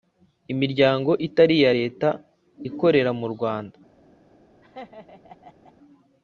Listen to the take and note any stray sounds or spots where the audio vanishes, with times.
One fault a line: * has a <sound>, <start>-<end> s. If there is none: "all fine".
* has a laugh, 4.6-5.7 s